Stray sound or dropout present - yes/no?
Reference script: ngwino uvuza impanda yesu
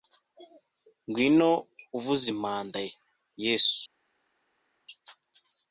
no